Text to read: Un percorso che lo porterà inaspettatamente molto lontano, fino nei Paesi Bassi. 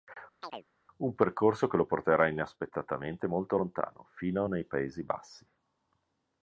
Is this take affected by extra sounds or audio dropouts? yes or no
yes